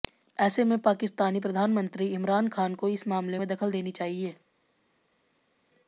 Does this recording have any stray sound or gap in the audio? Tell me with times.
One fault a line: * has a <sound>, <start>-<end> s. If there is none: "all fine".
all fine